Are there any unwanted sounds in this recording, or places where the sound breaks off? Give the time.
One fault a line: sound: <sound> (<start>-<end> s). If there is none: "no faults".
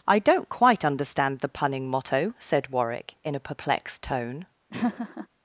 sound: laugh (4.7-5.3 s)